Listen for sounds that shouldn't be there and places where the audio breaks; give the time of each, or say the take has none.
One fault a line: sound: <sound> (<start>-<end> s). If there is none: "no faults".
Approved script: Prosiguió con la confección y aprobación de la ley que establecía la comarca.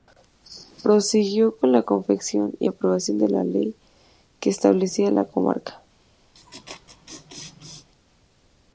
sound: laugh (6.3-7.9 s)